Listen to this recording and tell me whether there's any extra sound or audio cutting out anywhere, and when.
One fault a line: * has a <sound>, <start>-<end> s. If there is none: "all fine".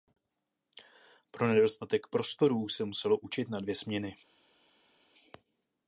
all fine